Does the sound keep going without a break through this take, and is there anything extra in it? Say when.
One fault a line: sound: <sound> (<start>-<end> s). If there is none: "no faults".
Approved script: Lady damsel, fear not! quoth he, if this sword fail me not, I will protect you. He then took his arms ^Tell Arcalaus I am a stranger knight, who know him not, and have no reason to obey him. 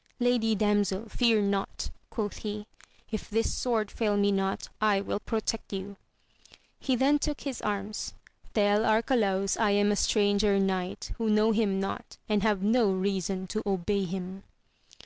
no faults